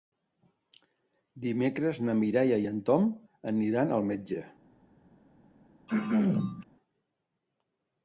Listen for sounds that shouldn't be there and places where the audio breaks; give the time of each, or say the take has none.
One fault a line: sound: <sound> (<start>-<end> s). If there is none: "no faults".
sound: throat clearing (5.9-6.6 s)